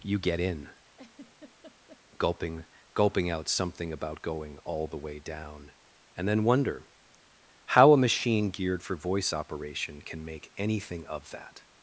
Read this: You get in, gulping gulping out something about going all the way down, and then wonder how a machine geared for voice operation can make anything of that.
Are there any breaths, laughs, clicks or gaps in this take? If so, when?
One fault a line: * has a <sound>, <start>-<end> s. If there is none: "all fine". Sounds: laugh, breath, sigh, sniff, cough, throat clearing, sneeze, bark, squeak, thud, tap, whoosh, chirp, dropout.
* has a laugh, 0.9-2.0 s